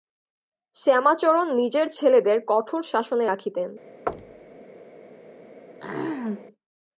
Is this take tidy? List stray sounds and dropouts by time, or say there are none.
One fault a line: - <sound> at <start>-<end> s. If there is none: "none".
- thud at 4.1-4.6 s
- throat clearing at 5.8-6.5 s